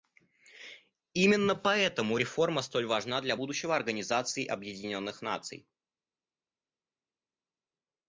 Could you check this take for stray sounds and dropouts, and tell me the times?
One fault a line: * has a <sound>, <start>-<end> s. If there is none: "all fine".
all fine